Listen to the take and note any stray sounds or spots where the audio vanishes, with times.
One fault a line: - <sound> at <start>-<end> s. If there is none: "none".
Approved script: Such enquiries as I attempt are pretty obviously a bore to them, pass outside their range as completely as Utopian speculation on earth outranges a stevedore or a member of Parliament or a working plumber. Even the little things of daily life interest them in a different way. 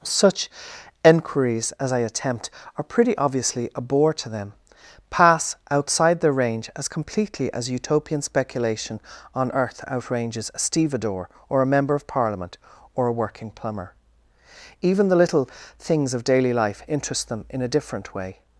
none